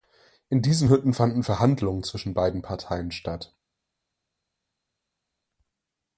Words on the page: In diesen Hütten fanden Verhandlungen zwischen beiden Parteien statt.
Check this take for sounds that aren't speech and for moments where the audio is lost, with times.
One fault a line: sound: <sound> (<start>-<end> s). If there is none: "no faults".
no faults